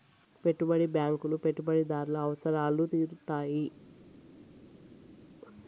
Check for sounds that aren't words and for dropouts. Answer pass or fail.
pass